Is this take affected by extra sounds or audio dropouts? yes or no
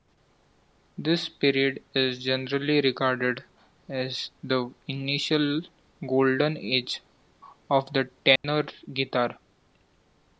yes